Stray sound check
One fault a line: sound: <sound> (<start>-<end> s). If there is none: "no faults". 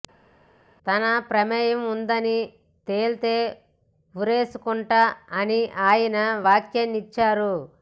no faults